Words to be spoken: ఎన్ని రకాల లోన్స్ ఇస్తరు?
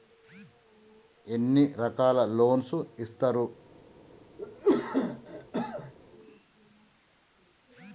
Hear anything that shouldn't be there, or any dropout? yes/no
yes